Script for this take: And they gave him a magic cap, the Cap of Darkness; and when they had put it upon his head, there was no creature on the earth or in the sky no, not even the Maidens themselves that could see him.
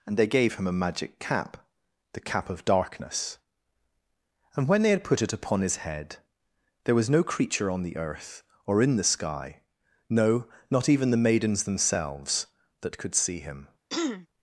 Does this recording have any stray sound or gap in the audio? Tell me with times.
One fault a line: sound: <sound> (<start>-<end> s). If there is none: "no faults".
sound: throat clearing (13.9-14.3 s)